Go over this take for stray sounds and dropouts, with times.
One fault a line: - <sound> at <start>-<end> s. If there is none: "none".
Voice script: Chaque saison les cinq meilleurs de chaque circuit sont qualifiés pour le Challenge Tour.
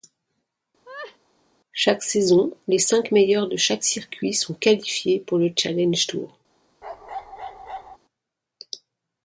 - laugh at 0.8-1.2 s
- bark at 6.8-8.0 s